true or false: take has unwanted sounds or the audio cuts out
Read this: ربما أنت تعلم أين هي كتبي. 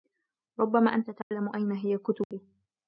true